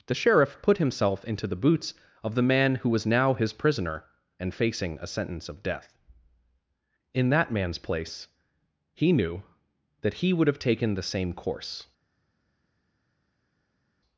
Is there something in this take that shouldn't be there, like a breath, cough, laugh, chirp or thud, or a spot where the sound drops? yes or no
no